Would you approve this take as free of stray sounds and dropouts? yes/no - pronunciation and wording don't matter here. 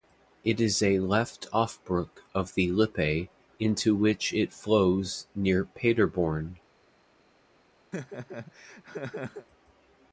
no